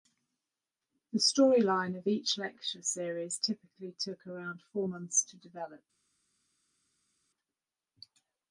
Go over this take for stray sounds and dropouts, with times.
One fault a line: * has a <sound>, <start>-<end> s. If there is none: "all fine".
all fine